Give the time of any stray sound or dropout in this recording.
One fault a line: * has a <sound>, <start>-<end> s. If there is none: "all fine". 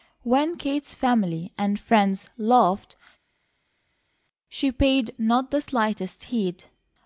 all fine